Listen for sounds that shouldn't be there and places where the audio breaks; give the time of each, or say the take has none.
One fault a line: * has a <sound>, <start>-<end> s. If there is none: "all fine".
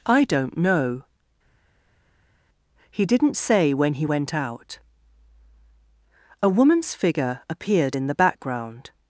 all fine